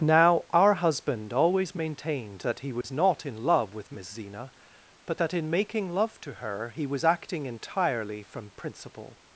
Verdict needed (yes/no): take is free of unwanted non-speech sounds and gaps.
no